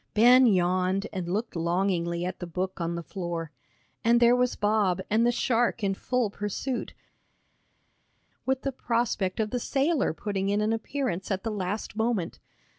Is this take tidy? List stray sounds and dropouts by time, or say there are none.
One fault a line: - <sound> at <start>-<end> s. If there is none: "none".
none